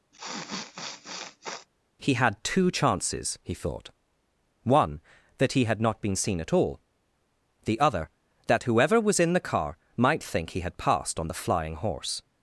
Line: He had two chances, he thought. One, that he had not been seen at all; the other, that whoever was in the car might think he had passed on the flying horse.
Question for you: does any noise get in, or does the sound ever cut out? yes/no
yes